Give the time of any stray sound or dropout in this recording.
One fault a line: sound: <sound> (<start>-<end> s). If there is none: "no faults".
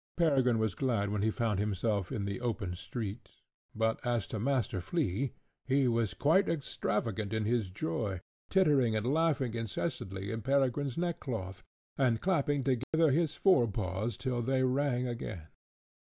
sound: dropout (12.8-12.9 s)